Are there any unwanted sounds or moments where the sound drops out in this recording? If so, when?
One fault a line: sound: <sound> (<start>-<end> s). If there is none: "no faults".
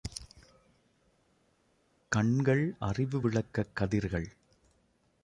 no faults